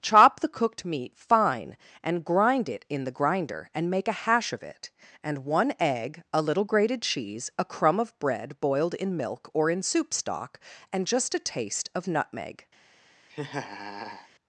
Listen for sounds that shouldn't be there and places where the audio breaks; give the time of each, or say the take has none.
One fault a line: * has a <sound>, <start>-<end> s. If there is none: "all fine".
* has a laugh, 13.3-14.3 s